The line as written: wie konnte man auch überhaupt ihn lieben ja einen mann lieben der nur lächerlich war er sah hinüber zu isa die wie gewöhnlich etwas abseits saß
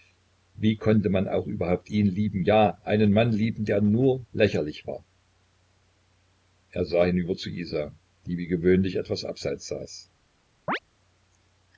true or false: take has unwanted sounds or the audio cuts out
true